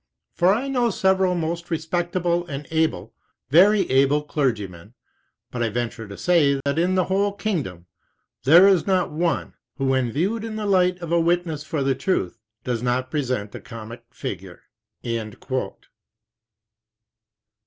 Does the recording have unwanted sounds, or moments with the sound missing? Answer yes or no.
yes